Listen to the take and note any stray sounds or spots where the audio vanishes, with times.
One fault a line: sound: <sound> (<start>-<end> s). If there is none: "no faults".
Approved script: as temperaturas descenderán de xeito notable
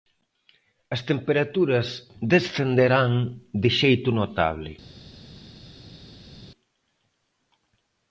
no faults